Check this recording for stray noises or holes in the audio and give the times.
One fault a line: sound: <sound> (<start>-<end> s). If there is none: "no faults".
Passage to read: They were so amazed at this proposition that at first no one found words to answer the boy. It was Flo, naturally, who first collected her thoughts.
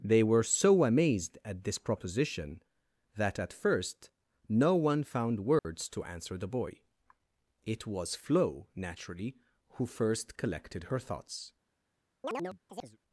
sound: dropout (5.6-5.7 s)
sound: chirp (12.2-13.0 s)